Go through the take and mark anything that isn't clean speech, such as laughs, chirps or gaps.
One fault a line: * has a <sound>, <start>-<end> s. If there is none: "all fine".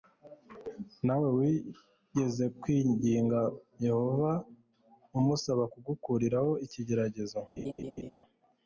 * has a laugh, 7.6-8.1 s